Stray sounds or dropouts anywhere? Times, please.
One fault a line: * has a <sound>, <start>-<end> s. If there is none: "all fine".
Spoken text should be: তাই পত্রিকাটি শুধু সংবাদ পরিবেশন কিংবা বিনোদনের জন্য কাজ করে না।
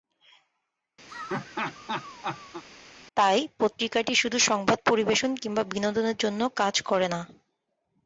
* has a laugh, 1.1-2.6 s